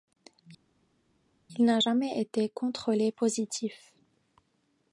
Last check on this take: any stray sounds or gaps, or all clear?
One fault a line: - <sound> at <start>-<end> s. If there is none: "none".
none